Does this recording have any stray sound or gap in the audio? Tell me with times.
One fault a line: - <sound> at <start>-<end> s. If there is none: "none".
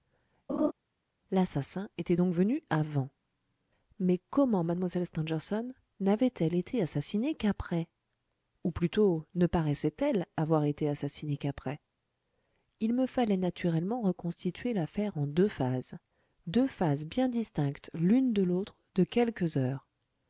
- laugh at 0.5-0.7 s